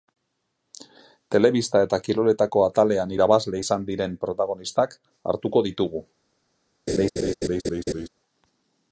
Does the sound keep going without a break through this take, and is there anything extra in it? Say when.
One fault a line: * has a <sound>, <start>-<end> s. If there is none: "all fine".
* has a laugh, 6.9-8.1 s